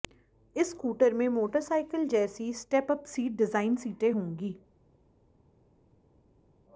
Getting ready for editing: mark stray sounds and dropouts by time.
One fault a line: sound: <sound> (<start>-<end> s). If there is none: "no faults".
no faults